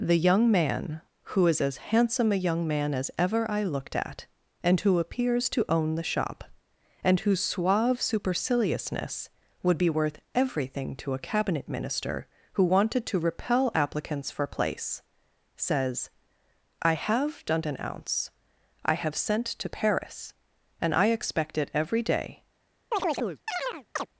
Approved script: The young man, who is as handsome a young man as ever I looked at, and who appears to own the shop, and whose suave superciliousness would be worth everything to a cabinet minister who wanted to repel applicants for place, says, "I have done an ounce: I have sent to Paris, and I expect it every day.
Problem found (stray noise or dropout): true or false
true